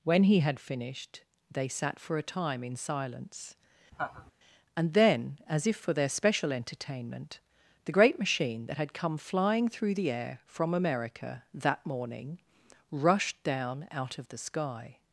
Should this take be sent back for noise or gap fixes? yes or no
yes